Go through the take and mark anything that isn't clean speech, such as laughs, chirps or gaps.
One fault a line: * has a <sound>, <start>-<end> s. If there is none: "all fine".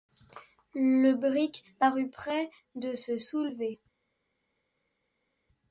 all fine